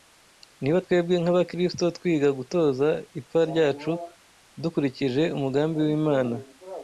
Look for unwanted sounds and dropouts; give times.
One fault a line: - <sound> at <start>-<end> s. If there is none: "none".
none